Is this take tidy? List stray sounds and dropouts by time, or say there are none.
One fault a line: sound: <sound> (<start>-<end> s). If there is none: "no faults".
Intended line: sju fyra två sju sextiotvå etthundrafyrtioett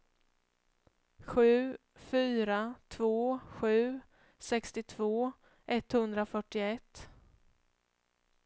no faults